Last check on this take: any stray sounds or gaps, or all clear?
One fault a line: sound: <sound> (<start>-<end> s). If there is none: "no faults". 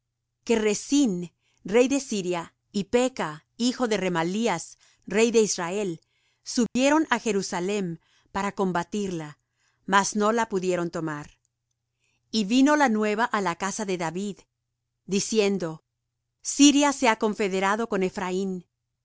sound: dropout (6.7-6.8 s)